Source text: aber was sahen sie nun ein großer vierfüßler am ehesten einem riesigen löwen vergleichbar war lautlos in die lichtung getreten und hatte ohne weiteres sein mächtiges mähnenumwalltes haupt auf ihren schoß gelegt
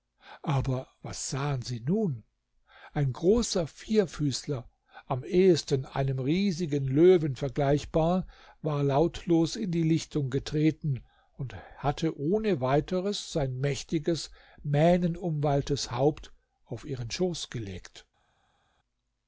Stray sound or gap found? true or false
false